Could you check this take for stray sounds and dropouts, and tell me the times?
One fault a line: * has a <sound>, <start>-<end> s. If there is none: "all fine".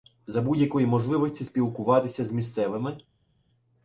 all fine